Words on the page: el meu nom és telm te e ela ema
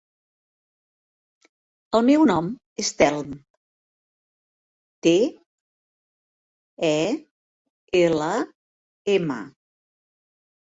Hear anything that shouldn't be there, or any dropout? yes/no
no